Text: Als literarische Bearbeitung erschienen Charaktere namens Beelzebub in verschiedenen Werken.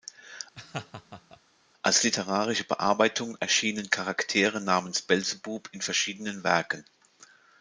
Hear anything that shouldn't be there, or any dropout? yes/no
yes